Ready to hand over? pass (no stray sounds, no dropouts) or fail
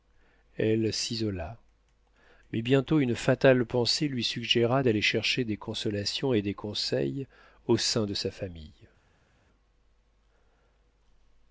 pass